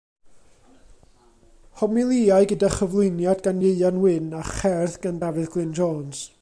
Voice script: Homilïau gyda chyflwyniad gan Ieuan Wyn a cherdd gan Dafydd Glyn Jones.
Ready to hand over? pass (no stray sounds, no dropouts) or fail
pass